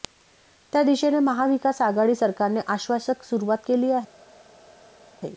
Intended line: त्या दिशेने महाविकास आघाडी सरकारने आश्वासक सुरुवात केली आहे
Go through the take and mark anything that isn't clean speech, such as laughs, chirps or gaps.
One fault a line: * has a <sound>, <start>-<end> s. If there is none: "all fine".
all fine